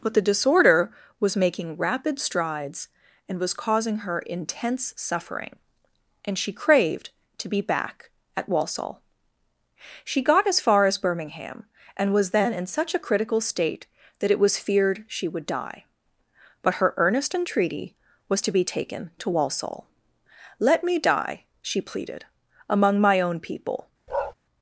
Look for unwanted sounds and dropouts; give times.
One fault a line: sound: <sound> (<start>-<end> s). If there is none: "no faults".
sound: bark (24.1-24.3 s)